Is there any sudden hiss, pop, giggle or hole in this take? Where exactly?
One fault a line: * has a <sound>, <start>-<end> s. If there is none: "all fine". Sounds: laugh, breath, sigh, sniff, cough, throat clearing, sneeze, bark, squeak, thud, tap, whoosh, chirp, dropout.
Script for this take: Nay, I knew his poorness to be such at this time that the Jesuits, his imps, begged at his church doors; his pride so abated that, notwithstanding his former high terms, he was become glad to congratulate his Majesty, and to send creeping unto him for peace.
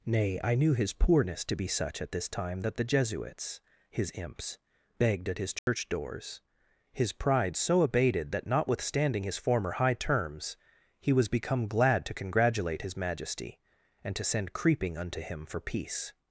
* has a dropout, 5.6-5.7 s